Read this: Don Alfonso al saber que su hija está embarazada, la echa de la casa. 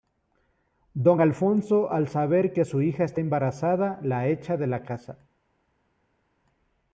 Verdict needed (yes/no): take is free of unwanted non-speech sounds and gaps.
yes